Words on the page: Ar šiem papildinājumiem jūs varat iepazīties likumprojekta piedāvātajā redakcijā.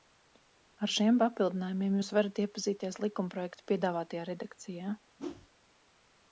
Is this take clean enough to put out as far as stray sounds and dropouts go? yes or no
no